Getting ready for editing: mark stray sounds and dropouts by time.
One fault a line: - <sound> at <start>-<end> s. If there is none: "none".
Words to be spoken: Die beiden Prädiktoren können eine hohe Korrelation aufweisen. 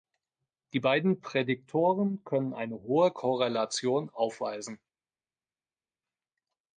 none